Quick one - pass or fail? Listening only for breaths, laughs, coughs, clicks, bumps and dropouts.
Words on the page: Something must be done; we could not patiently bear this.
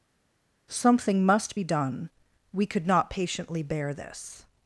pass